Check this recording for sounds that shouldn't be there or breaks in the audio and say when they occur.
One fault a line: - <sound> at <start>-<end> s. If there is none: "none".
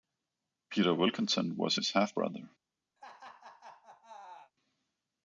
- laugh at 3.0-4.5 s